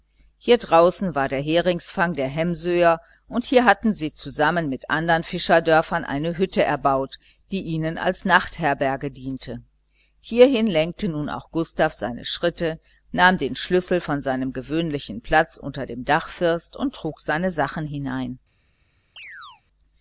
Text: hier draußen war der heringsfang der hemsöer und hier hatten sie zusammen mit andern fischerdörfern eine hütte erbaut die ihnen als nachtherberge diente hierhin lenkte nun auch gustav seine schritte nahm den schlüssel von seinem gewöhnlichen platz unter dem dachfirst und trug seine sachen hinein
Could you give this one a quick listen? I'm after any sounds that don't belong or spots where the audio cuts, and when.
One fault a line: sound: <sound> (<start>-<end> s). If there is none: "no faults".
sound: chirp (19.2-19.6 s)